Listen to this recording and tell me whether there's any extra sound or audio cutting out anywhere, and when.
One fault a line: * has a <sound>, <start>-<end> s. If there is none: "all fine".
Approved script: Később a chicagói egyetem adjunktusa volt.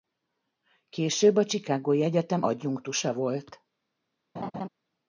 * has a laugh, 4.4-4.7 s